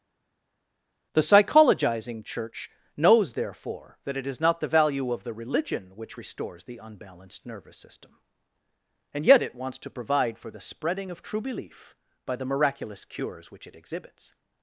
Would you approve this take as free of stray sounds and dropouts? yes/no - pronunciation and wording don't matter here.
yes